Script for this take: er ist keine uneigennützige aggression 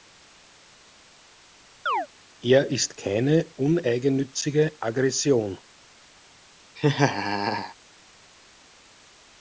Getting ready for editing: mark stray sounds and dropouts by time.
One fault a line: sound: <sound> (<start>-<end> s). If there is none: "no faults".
sound: chirp (1.9-2.1 s)
sound: laugh (6.8-7.7 s)